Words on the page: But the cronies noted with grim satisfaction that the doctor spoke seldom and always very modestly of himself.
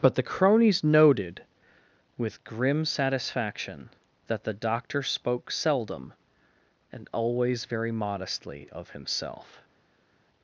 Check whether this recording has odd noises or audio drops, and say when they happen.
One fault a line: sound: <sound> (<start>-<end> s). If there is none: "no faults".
no faults